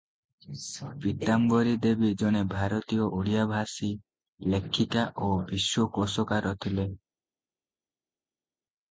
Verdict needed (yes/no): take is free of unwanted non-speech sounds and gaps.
yes